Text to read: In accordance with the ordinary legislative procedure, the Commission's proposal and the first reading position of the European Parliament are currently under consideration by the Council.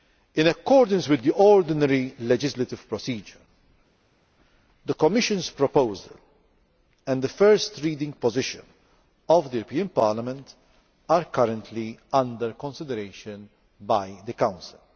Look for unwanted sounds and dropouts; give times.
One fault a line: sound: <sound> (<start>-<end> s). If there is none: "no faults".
no faults